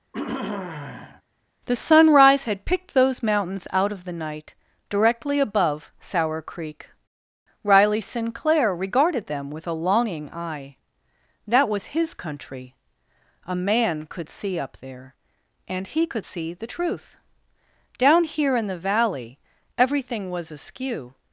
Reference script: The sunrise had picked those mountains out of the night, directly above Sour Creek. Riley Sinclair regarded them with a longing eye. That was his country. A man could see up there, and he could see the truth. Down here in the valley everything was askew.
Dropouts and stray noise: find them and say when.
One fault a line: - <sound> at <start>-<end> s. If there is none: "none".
- throat clearing at 0.1-1.2 s